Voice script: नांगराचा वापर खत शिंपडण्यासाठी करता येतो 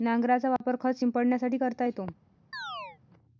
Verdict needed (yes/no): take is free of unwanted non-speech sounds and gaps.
no